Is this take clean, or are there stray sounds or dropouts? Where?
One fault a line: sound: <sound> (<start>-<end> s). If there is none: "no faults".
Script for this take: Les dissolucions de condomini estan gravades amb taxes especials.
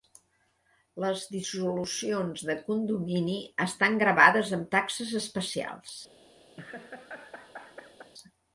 sound: laugh (6.6-8.1 s)